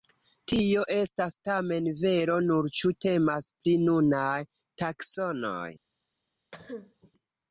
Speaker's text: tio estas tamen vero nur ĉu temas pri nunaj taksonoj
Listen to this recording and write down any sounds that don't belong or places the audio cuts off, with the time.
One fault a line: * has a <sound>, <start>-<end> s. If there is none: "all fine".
* has a cough, 6.5-7.1 s